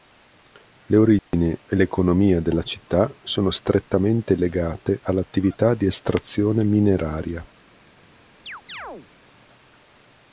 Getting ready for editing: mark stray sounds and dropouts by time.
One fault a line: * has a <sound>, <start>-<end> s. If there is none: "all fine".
* has a dropout, 1.2-1.3 s
* has a chirp, 8.5-9.1 s